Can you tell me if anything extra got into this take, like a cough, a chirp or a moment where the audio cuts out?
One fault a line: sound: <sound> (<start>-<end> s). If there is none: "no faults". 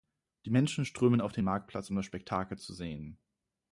no faults